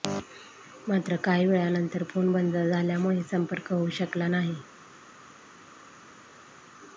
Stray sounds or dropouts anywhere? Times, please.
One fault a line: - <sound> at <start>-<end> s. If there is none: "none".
none